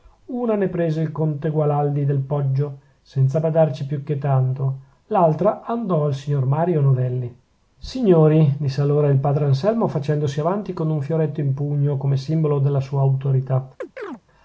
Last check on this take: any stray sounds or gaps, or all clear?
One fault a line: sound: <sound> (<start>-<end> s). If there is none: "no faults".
sound: chirp (13.8-14.2 s)